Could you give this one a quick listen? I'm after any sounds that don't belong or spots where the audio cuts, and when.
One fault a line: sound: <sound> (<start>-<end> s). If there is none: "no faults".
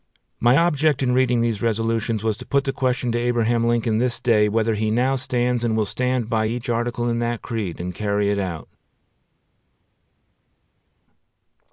no faults